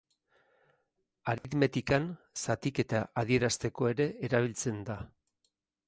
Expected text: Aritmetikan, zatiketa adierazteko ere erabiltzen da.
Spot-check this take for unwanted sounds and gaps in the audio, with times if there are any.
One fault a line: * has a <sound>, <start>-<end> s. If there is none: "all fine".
* has a dropout, 1.4-1.4 s